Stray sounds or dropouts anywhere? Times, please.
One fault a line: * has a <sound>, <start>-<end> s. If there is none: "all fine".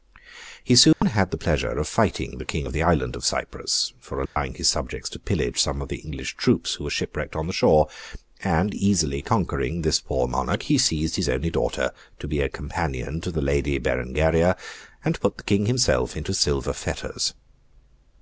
* has a dropout, 0.9-1.0 s
* has a dropout, 4.3-4.4 s